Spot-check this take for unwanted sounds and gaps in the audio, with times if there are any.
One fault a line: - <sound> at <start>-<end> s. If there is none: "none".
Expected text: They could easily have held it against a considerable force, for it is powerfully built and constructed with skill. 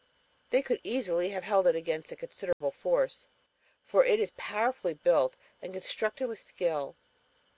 - dropout at 2.5-2.6 s